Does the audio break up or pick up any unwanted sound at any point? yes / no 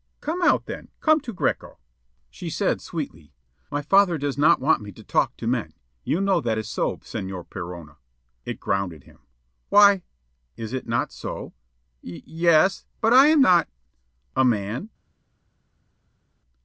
no